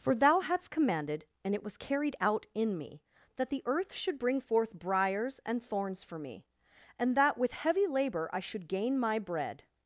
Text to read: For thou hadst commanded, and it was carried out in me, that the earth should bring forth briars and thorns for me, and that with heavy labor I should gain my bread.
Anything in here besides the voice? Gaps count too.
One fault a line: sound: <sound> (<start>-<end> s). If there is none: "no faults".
no faults